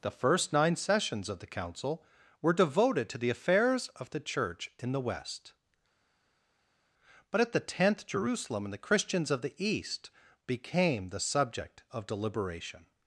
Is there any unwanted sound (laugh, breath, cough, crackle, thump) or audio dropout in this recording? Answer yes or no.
no